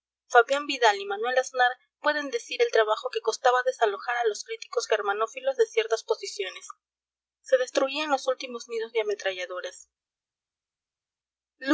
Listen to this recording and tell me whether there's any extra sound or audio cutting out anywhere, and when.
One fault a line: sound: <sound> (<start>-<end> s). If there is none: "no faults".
no faults